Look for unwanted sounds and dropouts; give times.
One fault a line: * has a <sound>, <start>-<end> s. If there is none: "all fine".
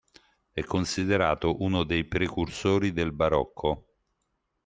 all fine